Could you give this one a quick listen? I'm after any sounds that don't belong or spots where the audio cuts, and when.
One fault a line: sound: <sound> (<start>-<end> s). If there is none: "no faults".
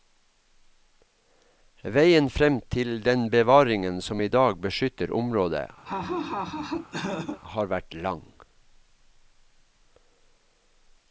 sound: laugh (5.9-7.4 s)